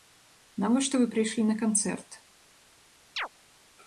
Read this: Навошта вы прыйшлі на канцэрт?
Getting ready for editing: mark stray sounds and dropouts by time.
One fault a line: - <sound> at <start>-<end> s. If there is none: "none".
- chirp at 3.2-3.3 s